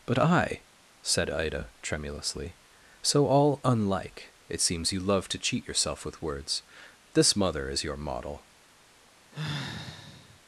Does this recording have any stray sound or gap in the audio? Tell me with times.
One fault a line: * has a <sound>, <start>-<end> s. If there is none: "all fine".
* has a sigh, 9.3-10.4 s